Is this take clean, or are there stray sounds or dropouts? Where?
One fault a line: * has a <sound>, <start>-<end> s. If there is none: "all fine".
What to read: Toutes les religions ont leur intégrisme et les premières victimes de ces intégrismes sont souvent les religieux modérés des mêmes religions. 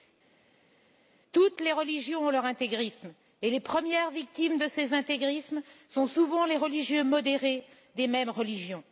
all fine